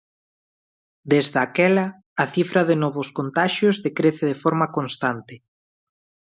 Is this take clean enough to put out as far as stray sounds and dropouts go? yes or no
yes